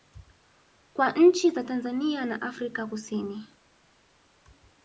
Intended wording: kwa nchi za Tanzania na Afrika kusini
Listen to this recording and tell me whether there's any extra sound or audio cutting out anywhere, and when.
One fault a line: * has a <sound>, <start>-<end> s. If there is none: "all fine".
all fine